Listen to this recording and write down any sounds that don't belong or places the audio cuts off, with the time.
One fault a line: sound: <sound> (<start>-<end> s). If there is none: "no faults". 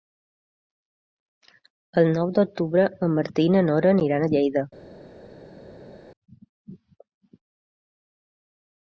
no faults